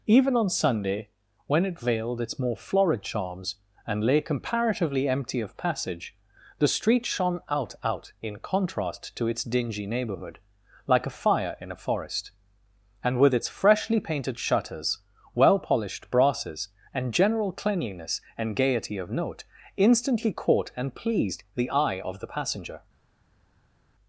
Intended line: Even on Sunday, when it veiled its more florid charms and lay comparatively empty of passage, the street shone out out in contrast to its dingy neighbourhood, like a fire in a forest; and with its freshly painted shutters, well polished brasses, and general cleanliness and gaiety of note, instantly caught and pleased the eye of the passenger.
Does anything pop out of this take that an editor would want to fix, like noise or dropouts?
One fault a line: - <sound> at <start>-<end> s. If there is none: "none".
none